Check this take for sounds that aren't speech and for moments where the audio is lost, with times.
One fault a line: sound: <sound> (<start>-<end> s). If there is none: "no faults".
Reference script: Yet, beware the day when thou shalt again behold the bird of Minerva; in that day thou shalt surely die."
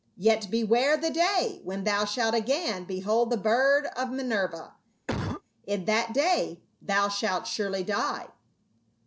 sound: cough (5.1-5.4 s)